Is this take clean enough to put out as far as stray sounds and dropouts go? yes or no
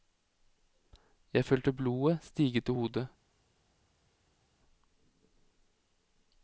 yes